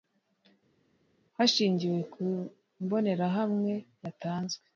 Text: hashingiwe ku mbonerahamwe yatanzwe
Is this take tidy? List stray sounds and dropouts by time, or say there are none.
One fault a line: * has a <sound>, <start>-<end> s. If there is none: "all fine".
all fine